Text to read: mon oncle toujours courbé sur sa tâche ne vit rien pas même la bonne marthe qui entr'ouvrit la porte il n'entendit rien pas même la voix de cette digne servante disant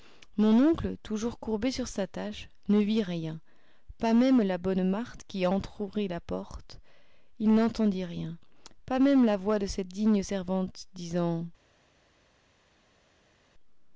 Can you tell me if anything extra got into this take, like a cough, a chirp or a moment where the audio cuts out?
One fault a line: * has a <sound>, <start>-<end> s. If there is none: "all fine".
all fine